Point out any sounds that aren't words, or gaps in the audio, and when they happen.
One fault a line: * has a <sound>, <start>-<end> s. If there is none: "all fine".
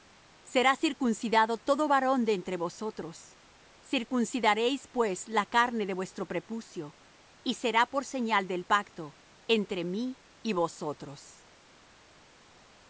all fine